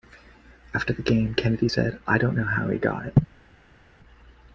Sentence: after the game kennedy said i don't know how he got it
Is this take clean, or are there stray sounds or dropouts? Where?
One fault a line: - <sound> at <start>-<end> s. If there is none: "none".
none